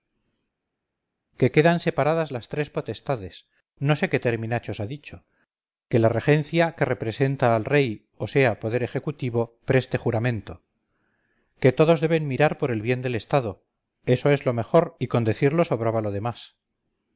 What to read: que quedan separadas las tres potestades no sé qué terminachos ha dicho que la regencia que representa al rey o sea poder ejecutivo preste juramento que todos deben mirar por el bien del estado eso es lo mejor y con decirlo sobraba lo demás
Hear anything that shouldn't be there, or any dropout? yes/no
no